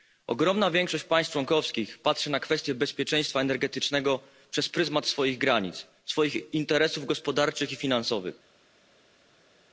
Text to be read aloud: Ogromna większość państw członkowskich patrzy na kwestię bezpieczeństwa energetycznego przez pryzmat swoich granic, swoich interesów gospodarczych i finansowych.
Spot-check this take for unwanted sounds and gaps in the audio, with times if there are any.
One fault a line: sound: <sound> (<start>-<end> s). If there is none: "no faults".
no faults